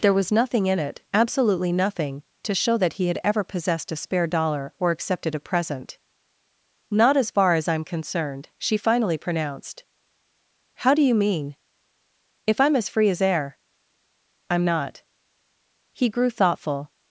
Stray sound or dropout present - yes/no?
no